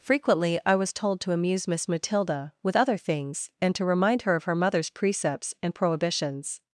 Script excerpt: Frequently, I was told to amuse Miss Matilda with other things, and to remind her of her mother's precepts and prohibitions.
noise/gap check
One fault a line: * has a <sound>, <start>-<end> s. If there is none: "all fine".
all fine